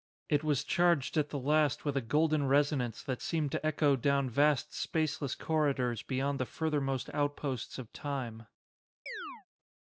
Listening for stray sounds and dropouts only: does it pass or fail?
fail